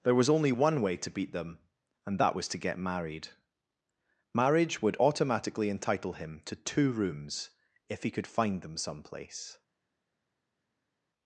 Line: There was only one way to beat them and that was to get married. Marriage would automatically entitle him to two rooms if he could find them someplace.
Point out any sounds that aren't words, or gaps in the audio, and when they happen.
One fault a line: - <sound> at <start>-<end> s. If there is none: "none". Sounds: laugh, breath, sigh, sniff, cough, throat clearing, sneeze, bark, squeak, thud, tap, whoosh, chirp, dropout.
none